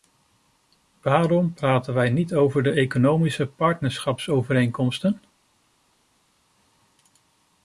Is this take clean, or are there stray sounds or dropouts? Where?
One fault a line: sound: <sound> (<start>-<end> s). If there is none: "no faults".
no faults